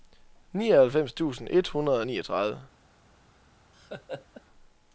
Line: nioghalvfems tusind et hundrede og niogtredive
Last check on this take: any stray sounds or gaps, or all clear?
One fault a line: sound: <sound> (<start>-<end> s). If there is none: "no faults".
sound: laugh (3.7-4.4 s)